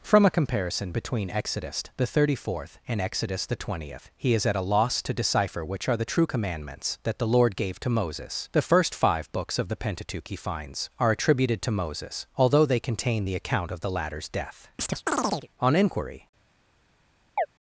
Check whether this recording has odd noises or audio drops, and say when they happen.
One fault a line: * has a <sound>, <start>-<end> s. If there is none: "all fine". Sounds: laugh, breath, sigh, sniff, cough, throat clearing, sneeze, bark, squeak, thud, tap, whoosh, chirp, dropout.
* has a chirp, 14.8-15.5 s
* has a chirp, 17.4-17.5 s